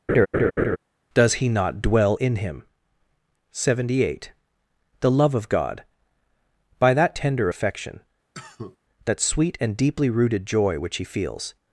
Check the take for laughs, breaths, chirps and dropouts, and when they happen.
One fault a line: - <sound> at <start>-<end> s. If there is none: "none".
- laugh at 0.1-0.8 s
- cough at 8.3-8.8 s